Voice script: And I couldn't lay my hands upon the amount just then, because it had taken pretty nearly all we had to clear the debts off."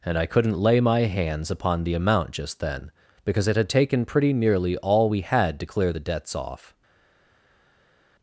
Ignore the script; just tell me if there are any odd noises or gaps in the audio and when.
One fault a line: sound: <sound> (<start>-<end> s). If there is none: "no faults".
no faults